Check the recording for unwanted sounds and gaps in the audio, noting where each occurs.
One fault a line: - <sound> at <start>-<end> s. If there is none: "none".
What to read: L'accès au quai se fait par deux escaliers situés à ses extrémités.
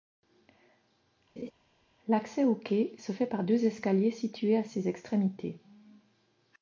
- laugh at 1.4-1.5 s